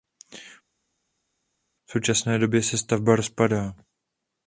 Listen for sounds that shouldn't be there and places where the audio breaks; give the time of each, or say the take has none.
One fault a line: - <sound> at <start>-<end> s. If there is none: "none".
none